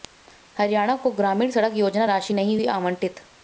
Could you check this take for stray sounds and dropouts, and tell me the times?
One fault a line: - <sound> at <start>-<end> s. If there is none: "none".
none